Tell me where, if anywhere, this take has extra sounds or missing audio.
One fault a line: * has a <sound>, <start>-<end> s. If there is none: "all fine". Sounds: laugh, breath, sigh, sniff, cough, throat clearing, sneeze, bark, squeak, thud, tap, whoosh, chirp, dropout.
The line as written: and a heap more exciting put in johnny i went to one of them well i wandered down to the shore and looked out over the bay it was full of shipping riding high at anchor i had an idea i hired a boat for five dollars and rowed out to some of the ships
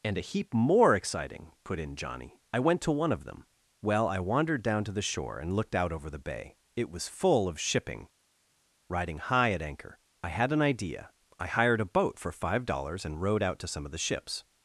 all fine